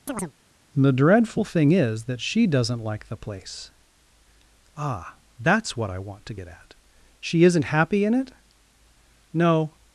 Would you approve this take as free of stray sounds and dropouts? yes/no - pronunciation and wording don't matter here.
no